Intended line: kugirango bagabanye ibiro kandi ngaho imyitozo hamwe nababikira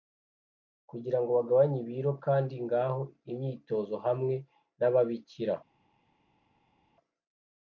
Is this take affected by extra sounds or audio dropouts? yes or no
no